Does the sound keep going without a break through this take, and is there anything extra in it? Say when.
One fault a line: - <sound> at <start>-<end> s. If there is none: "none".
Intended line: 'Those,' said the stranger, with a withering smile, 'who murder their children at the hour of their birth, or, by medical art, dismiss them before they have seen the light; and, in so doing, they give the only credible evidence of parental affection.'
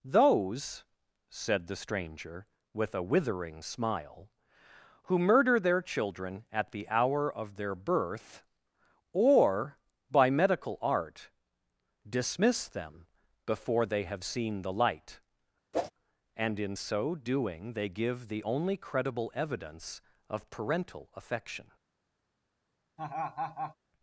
- whoosh at 15.7-15.9 s
- laugh at 23.0-23.8 s